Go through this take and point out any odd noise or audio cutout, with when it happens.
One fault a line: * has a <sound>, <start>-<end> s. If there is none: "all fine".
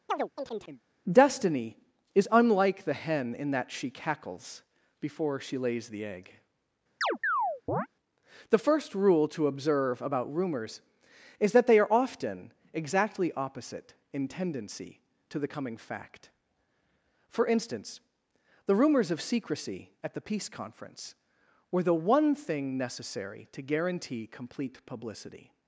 * has a chirp, 0.1-0.8 s
* has a chirp, 7.0-7.9 s